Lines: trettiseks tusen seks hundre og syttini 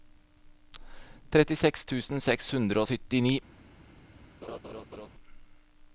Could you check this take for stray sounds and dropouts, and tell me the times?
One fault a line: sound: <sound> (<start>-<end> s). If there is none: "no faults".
sound: laugh (4.4-5.1 s)